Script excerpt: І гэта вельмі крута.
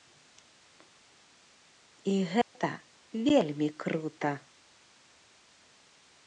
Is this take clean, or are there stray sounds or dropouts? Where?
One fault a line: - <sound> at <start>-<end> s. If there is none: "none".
- dropout at 2.4-2.6 s